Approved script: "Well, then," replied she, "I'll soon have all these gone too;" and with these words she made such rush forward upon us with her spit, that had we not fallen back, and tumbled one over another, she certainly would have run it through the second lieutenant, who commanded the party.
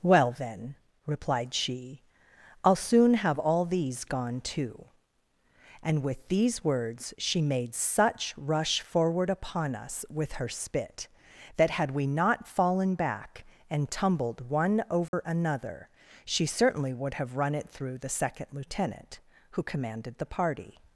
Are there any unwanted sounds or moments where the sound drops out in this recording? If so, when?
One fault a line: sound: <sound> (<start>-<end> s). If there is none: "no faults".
sound: dropout (15.1-15.1 s)